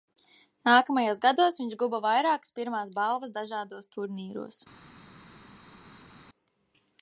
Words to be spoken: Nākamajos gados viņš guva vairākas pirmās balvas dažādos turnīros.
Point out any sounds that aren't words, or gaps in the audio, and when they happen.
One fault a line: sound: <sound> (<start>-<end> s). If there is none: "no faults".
no faults